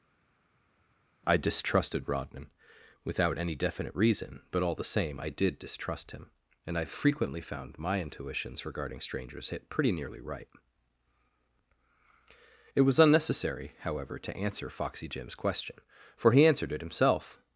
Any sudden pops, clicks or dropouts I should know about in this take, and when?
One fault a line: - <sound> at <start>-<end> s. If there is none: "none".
none